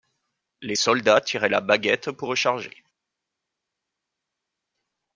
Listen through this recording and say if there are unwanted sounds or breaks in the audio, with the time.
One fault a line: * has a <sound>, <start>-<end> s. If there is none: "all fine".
all fine